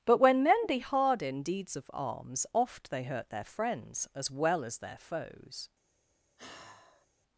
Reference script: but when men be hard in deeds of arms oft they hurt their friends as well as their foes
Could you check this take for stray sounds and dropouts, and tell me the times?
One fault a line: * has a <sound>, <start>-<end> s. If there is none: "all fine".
* has a sigh, 6.4-7.1 s